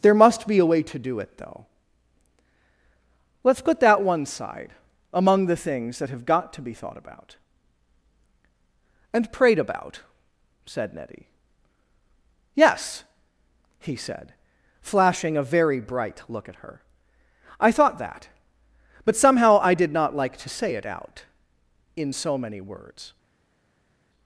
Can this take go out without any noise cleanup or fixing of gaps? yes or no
yes